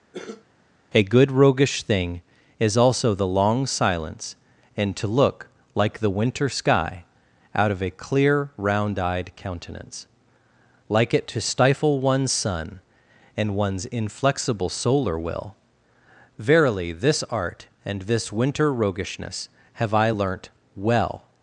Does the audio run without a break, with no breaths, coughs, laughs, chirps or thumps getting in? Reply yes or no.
no